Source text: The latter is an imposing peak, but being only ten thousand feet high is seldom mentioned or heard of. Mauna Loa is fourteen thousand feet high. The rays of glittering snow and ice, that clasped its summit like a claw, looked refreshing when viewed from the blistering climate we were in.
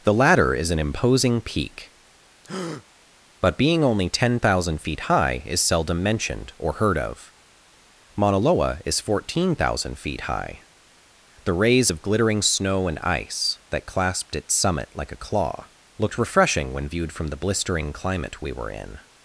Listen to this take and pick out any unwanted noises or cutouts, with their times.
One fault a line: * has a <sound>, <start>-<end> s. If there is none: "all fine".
* has a breath, 2.4-2.8 s